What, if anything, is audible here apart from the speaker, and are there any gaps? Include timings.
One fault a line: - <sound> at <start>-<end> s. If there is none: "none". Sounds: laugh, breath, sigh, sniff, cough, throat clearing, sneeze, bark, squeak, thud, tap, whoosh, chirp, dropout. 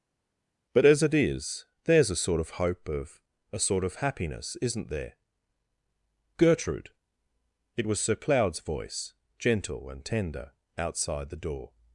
none